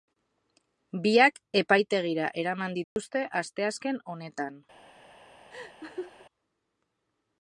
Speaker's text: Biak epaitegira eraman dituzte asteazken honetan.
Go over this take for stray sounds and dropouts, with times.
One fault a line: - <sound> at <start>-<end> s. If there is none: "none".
- dropout at 2.8-3.0 s
- laugh at 5.5-6.3 s